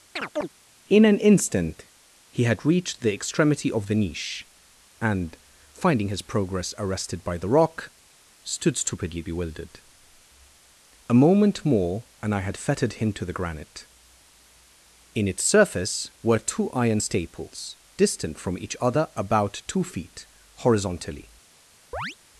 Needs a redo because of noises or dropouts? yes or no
yes